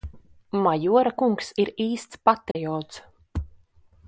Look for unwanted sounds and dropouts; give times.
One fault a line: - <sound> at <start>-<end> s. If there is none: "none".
- dropout at 2.5-2.6 s